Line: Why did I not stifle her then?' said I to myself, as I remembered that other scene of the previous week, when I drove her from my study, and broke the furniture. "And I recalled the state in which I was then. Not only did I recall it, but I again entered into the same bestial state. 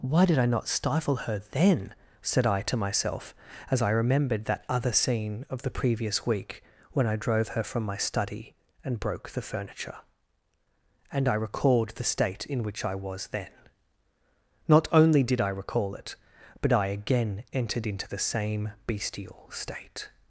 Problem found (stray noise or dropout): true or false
false